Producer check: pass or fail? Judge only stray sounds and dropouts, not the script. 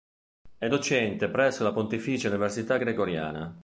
pass